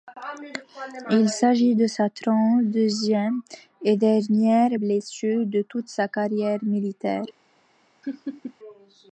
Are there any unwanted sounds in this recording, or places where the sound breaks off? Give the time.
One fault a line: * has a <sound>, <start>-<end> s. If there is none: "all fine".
* has a laugh, 8.0-8.5 s